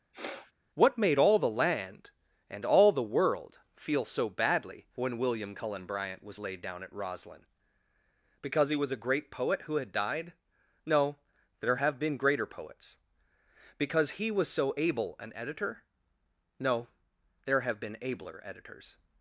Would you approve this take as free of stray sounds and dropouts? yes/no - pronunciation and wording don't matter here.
no